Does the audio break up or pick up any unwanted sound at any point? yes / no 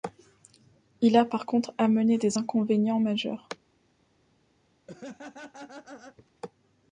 yes